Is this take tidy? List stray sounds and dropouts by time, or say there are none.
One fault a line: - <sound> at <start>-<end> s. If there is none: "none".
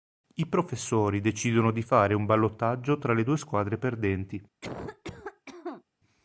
- cough at 4.6-5.8 s